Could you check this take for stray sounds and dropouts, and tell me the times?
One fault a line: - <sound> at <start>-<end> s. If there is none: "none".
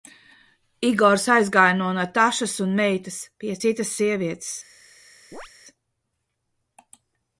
- chirp at 5.3-5.5 s